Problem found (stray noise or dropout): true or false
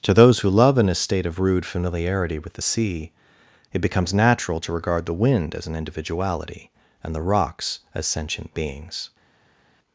false